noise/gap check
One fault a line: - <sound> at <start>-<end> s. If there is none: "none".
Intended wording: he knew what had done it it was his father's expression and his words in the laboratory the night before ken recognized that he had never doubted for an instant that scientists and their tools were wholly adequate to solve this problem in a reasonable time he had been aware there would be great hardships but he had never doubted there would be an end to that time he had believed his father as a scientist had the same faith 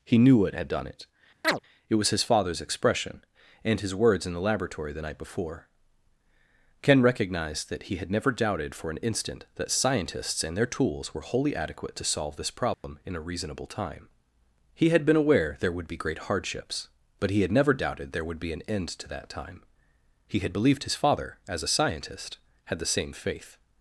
- chirp at 1.4-1.6 s
- dropout at 12.7-12.8 s